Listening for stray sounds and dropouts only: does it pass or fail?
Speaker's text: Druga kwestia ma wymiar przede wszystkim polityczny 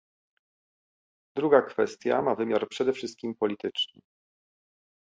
pass